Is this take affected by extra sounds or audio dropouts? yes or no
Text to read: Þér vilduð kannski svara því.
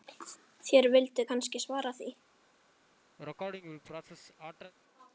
yes